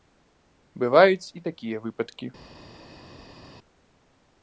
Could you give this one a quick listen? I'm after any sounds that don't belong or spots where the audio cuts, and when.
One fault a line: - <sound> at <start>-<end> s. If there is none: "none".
none